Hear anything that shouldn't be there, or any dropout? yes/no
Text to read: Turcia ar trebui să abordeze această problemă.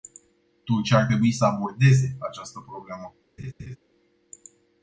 yes